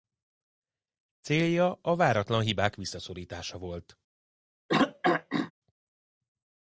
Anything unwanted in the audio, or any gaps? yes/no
yes